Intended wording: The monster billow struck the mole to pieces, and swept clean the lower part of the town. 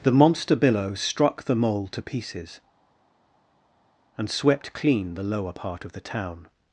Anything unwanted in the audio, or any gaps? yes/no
no